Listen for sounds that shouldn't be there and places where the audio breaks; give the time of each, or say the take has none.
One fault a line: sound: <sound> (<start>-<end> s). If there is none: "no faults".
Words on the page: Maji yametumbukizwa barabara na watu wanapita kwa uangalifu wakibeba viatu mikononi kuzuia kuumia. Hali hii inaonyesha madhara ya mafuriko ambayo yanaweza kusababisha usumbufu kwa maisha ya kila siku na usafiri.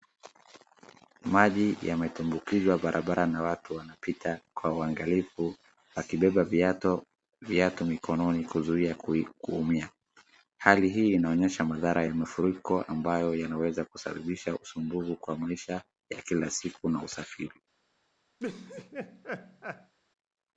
sound: laugh (18.4-19.9 s)